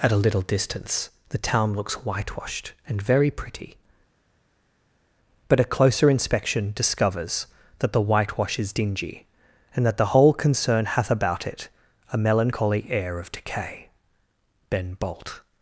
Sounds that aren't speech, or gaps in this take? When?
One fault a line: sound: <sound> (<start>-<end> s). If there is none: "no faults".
no faults